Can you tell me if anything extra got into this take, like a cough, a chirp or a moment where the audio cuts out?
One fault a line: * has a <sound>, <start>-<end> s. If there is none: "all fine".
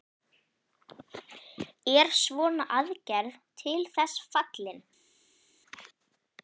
all fine